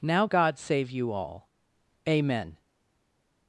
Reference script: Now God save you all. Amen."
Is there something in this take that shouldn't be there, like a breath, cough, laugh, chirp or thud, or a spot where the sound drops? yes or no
no